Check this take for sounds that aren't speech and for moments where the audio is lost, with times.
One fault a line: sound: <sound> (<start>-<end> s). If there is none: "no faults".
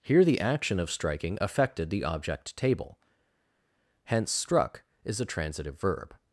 no faults